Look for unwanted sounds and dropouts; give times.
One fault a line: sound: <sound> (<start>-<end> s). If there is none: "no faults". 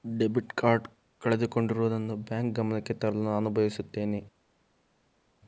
no faults